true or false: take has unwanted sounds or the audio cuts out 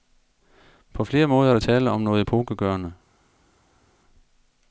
false